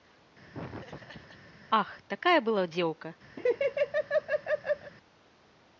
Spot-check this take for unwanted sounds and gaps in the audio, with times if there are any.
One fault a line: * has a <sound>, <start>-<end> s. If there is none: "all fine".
* has a laugh, 0.5-1.5 s
* has a laugh, 3.4-4.9 s